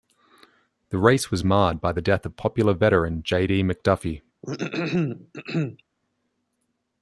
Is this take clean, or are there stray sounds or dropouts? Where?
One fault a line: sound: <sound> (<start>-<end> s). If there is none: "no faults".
sound: throat clearing (4.4-5.8 s)